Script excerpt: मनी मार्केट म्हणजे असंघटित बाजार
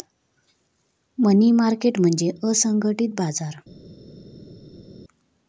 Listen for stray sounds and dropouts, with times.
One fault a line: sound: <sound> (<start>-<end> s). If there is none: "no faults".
no faults